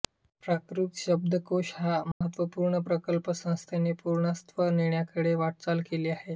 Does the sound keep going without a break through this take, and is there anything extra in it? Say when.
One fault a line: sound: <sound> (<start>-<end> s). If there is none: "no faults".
sound: dropout (2.1-2.2 s)